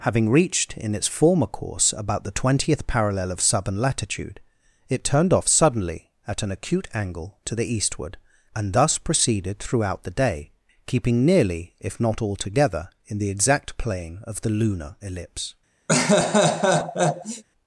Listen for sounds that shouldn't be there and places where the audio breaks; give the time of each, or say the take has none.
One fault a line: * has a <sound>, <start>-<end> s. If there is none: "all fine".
* has a laugh, 15.9-17.4 s